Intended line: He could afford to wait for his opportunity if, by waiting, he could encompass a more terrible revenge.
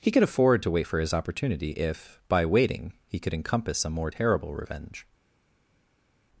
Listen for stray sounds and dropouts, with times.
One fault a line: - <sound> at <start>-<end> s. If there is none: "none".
none